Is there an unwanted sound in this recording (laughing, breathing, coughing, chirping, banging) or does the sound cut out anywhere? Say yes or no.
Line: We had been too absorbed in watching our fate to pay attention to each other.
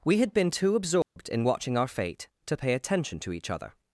yes